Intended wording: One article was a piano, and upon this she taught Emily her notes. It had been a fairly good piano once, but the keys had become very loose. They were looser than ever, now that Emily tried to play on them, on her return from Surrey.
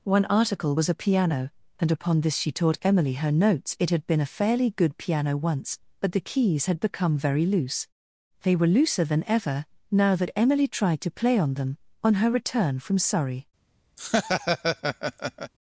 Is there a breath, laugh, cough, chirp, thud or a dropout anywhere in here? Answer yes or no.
yes